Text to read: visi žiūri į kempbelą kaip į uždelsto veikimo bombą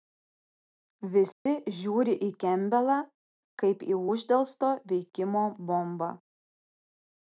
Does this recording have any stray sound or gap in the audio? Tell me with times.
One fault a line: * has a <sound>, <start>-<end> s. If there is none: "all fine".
* has a dropout, 1.3-1.5 s